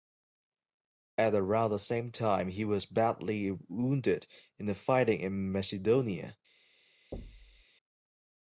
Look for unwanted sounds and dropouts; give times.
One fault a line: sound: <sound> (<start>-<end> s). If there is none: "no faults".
sound: thud (7.1-7.7 s)